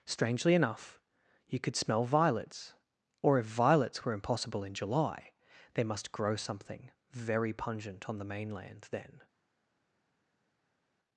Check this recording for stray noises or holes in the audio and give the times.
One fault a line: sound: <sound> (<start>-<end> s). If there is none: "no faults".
no faults